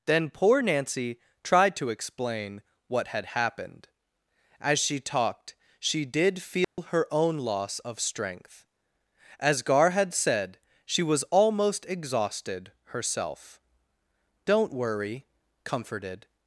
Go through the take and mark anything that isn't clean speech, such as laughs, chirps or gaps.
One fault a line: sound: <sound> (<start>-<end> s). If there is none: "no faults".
sound: dropout (6.6-6.8 s)